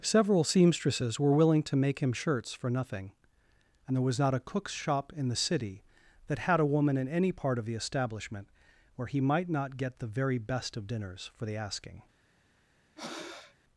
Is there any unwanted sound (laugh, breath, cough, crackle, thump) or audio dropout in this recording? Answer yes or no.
yes